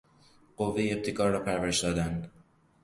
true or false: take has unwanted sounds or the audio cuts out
false